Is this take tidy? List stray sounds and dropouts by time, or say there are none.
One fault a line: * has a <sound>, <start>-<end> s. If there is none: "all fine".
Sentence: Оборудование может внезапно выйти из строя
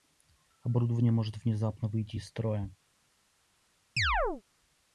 * has a chirp, 4.0-4.4 s